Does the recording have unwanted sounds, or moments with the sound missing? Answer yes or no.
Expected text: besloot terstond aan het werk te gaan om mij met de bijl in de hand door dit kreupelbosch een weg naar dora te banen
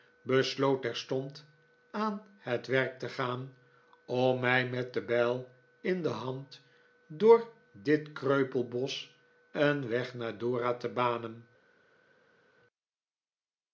no